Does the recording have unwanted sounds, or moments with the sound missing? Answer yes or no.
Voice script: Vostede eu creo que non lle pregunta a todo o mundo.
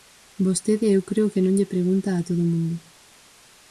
no